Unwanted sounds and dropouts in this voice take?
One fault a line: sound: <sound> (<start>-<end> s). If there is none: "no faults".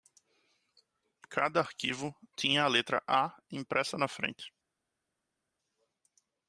no faults